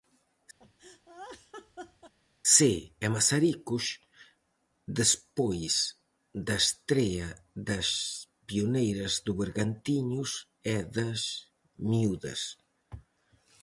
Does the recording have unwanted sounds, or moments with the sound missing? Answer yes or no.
yes